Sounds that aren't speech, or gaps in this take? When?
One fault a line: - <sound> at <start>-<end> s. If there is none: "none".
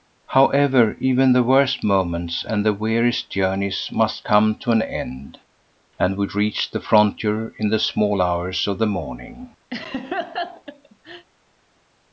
- laugh at 9.7-11.3 s